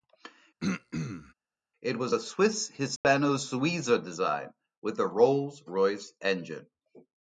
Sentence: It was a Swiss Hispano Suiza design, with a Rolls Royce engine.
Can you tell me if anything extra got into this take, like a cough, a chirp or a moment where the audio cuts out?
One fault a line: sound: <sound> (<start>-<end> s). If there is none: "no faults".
sound: throat clearing (0.6-1.3 s)
sound: dropout (3.0-3.0 s)